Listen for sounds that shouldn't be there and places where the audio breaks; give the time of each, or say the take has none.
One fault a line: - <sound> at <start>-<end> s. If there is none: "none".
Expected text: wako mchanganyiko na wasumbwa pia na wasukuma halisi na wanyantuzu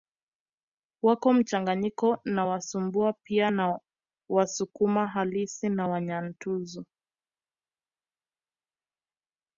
none